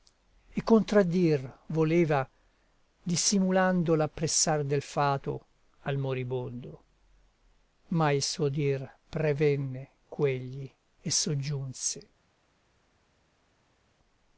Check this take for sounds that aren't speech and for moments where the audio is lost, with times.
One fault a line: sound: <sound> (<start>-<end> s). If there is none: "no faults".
no faults